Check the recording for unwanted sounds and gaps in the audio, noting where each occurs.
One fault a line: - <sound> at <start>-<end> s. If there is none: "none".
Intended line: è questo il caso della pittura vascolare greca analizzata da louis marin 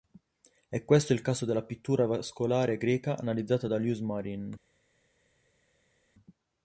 none